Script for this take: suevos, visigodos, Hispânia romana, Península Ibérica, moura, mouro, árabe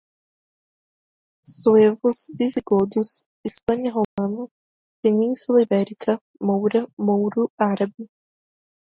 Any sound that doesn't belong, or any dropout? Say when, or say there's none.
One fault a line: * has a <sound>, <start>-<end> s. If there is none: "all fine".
* has a dropout, 4.0-4.2 s